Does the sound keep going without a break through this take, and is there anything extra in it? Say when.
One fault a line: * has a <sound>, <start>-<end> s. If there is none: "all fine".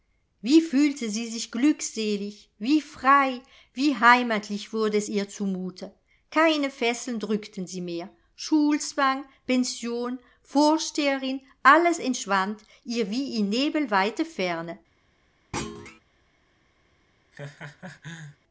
* has a thud, 15.5-16.0 s
* has a laugh, 17.3-18.4 s